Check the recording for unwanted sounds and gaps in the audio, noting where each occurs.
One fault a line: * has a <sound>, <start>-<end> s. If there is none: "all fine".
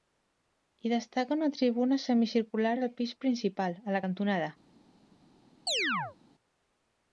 * has a chirp, 5.7-6.2 s